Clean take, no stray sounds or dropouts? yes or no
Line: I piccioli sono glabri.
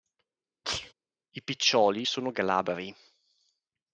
no